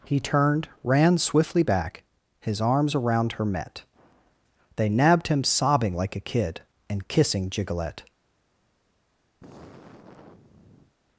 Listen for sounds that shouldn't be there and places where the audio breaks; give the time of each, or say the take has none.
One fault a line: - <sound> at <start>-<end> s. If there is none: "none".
- sigh at 9.4-11.0 s